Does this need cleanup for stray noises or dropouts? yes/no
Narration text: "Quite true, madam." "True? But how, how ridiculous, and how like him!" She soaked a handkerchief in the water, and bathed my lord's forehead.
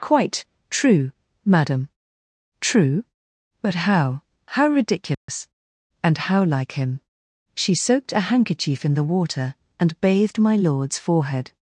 yes